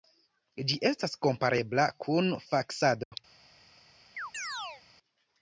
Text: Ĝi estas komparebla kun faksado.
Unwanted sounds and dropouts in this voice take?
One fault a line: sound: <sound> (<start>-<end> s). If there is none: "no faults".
sound: dropout (3.0-3.1 s)
sound: chirp (4.2-4.8 s)